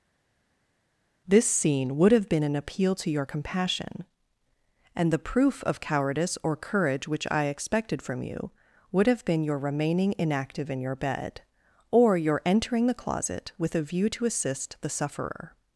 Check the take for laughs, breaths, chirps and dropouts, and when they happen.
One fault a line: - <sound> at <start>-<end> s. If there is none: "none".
none